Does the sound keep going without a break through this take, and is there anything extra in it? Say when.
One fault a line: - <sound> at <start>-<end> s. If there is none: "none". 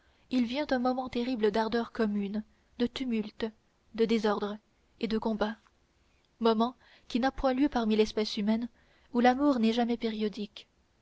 none